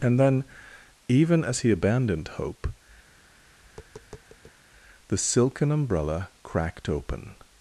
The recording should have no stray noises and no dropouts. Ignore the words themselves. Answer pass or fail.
fail